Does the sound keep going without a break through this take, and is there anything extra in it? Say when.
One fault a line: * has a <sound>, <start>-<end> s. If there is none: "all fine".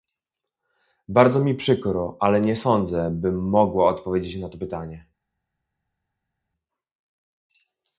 all fine